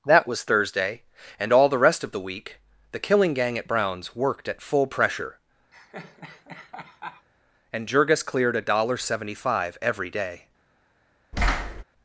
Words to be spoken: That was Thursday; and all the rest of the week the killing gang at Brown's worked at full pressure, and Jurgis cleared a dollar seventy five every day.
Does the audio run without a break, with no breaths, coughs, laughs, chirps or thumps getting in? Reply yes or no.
no